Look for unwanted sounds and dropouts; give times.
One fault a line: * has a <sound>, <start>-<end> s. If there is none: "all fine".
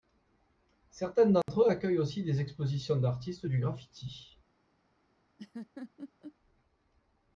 * has a dropout, 1.4-1.5 s
* has a laugh, 5.4-6.4 s